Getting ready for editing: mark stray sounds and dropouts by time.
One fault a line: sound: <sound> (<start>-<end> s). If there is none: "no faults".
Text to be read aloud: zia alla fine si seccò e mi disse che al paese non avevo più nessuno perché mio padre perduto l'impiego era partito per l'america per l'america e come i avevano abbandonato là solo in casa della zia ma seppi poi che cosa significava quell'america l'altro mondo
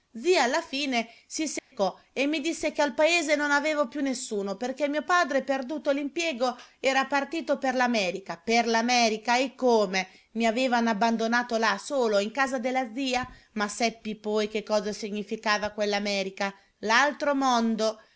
sound: dropout (1.6-1.7 s)